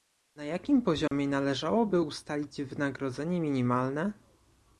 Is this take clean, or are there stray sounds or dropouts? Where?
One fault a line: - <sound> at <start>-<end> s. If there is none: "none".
- dropout at 1.1-1.1 s